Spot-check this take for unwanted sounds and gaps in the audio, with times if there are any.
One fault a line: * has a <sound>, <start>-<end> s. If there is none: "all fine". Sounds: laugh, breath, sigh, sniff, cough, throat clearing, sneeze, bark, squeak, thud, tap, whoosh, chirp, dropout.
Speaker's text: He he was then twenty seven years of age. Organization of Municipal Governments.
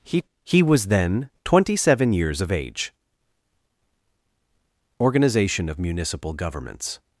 all fine